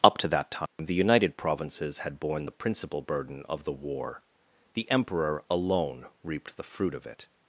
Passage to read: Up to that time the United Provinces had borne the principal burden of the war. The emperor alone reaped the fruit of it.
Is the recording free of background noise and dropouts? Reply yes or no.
no